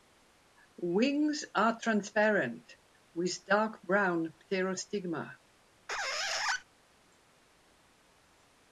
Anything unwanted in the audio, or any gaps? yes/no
yes